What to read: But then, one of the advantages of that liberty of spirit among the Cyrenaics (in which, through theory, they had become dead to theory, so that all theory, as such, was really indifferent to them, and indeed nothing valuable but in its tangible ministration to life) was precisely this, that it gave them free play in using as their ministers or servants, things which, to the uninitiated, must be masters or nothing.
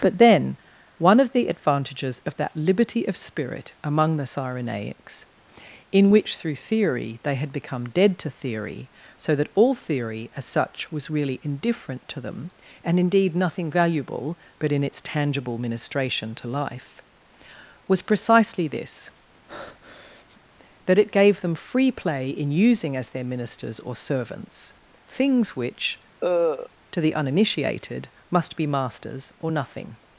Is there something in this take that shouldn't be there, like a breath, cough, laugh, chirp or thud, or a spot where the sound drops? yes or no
yes